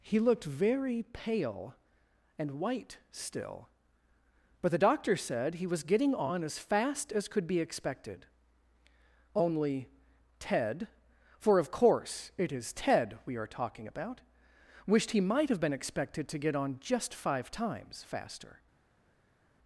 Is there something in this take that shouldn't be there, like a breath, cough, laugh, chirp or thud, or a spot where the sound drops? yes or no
no